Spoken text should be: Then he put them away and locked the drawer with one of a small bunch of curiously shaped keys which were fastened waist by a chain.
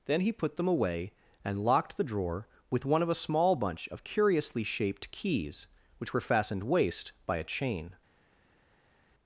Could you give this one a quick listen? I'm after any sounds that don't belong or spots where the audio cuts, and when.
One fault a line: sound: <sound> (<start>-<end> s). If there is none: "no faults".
no faults